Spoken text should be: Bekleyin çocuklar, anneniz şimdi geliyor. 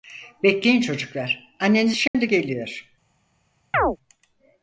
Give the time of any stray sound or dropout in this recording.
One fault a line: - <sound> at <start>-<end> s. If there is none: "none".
- dropout at 2.1-2.1 s
- chirp at 3.7-4.0 s